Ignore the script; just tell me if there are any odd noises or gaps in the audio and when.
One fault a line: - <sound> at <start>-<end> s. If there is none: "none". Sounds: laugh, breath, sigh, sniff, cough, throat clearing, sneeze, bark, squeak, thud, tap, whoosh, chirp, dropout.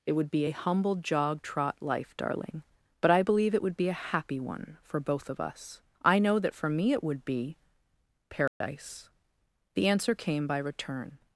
- dropout at 8.5-8.6 s